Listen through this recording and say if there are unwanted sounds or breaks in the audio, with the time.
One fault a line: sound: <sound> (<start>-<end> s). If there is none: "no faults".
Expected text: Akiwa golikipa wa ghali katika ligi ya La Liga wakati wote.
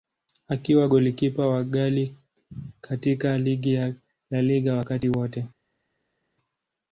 no faults